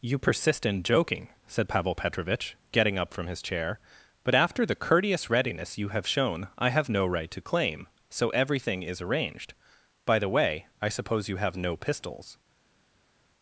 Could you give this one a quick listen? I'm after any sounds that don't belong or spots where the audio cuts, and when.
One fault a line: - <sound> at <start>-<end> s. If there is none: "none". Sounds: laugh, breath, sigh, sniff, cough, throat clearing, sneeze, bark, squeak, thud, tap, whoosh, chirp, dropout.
none